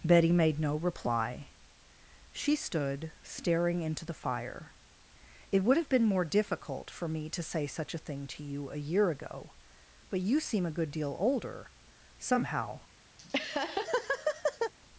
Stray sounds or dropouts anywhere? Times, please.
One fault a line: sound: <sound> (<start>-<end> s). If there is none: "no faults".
sound: laugh (13.2-14.7 s)